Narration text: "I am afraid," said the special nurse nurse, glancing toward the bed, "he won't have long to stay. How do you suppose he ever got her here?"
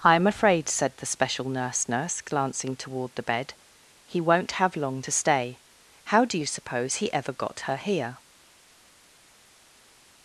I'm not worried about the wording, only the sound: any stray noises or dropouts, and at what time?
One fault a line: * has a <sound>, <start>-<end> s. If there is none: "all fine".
all fine